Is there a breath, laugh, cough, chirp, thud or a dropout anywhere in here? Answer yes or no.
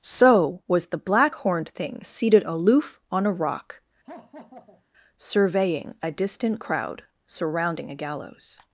yes